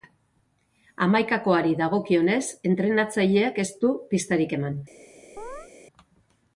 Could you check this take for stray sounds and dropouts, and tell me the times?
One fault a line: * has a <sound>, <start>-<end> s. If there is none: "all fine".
* has a chirp, 5.4-5.7 s